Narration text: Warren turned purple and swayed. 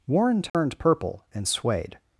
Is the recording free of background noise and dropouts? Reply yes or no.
no